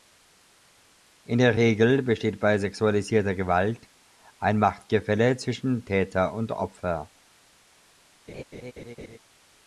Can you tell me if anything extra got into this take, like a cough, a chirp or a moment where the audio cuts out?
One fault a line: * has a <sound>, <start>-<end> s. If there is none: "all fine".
* has a laugh, 8.3-9.2 s